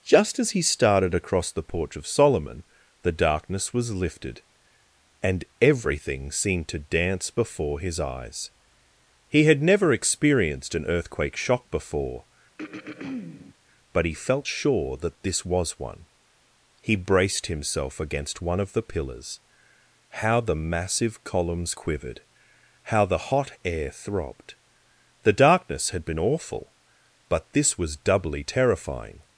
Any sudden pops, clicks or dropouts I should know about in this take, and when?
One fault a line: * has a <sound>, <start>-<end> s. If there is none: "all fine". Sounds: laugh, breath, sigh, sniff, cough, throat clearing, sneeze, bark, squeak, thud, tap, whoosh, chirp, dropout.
* has a throat clearing, 12.6-13.6 s